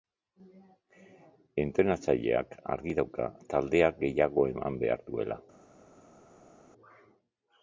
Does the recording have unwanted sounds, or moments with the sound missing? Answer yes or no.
no